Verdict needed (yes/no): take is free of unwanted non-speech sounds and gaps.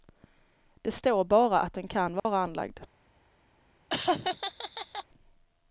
no